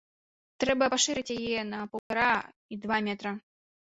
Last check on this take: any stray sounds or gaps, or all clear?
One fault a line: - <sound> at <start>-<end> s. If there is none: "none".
- dropout at 2.0-2.1 s